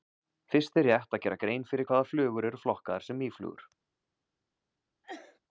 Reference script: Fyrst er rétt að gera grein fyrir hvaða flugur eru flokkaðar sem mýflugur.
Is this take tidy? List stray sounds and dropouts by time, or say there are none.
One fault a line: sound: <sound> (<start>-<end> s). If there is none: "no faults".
sound: sneeze (5.0-5.4 s)